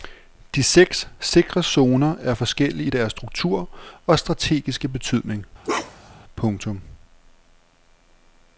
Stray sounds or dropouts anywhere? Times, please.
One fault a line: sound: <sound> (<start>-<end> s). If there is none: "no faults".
sound: bark (5.6-6.2 s)